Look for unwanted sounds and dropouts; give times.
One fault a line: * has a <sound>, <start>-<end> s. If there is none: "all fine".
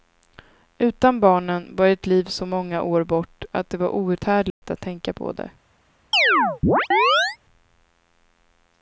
* has a dropout, 4.5-4.6 s
* has a chirp, 6.1-7.4 s